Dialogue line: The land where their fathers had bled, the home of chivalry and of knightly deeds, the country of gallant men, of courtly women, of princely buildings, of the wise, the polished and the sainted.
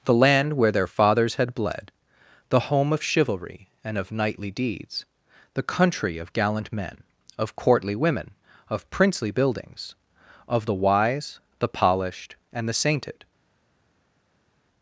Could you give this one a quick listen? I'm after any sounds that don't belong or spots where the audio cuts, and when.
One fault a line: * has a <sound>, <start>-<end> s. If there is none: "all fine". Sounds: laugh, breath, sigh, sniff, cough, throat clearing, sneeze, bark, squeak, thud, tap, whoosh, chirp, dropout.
all fine